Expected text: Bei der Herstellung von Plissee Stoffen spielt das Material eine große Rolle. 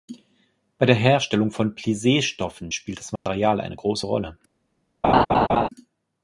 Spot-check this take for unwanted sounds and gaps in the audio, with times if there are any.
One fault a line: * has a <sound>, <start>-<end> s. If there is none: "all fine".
* has a dropout, 3.2-3.3 s
* has a laugh, 5.0-5.7 s